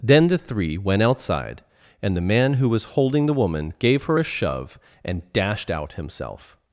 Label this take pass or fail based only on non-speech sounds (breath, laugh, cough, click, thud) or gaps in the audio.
pass